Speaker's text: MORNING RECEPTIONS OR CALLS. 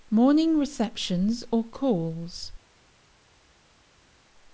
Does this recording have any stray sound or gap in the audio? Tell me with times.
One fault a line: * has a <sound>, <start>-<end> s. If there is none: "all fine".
all fine